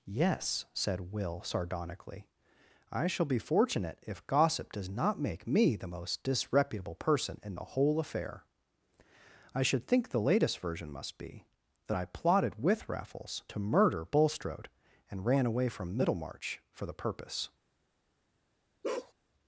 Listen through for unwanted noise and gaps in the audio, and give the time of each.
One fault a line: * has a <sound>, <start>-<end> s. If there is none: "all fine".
* has a bark, 18.8-19.1 s